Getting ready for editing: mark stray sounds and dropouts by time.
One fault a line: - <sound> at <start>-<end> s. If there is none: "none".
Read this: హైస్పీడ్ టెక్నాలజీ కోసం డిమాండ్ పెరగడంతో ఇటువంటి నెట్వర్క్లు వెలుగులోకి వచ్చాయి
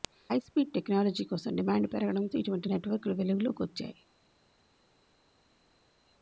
none